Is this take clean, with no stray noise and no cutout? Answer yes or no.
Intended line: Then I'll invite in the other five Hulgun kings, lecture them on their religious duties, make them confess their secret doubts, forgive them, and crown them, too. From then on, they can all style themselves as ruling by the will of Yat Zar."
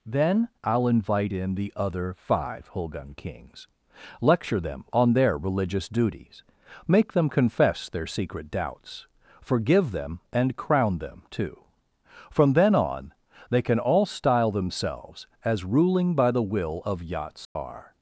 no